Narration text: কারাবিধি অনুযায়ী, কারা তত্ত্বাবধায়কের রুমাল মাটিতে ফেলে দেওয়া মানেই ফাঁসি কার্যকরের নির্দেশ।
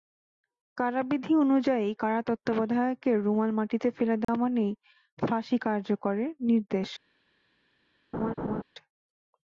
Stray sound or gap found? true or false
true